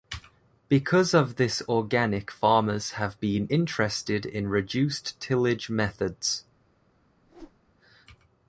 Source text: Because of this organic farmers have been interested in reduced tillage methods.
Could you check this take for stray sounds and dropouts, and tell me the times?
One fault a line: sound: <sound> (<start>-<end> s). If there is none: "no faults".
sound: whoosh (7.2-7.6 s)